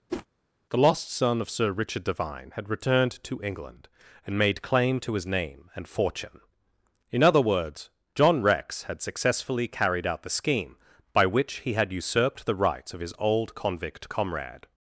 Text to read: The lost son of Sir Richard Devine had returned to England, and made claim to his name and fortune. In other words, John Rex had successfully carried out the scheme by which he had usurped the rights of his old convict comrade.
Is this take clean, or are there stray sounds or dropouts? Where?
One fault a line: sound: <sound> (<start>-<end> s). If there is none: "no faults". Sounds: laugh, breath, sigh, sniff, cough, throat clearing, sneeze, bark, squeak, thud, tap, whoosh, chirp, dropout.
sound: whoosh (0.1-0.3 s)